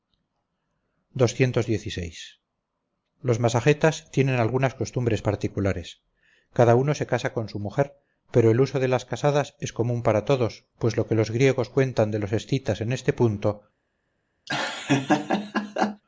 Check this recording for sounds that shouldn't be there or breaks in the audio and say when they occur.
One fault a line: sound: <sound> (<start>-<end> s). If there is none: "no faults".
sound: laugh (14.5-16.0 s)